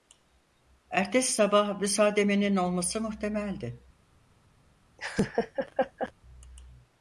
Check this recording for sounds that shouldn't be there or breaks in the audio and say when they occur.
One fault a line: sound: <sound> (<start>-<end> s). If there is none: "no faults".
sound: laugh (5.0-6.1 s)